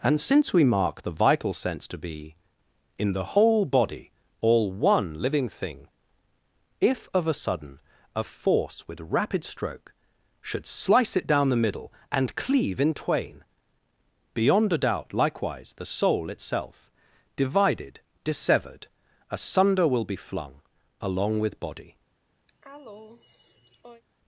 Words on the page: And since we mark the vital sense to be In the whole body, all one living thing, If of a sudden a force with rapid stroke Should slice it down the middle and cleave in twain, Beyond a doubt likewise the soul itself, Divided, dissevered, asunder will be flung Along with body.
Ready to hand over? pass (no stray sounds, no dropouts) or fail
fail